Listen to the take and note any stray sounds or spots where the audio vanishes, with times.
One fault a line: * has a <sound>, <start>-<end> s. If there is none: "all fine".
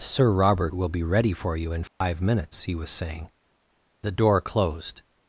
* has a dropout, 1.9-2.0 s